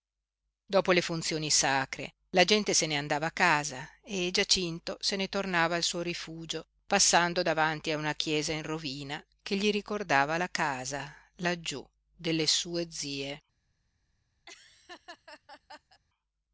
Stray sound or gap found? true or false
true